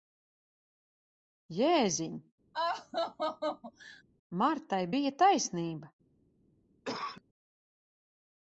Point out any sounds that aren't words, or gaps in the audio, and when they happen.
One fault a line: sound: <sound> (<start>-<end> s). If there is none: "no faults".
sound: laugh (2.5-4.0 s)
sound: cough (6.8-7.2 s)